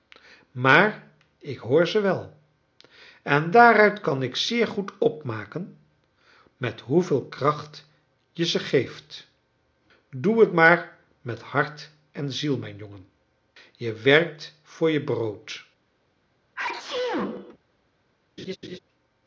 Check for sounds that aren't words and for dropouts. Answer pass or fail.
fail